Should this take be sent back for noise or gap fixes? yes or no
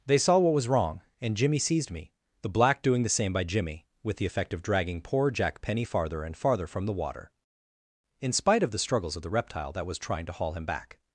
no